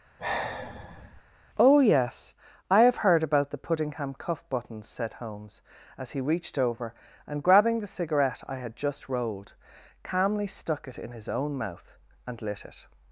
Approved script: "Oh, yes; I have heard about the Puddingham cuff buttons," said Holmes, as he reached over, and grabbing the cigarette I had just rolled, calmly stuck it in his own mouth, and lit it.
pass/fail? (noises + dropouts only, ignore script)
fail